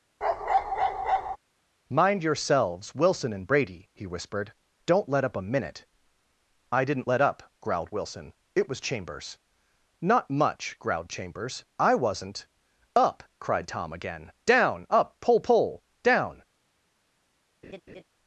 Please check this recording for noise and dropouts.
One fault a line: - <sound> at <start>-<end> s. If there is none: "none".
- bark at 0.2-1.4 s
- laugh at 17.6-18.0 s